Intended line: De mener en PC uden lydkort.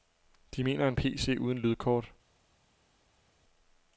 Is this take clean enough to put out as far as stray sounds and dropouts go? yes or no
yes